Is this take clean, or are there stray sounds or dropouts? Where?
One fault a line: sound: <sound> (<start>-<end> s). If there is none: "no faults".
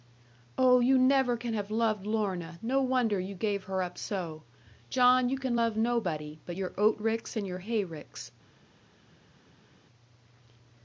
no faults